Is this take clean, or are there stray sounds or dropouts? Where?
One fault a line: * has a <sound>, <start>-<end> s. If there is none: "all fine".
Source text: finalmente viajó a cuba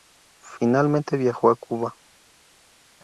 all fine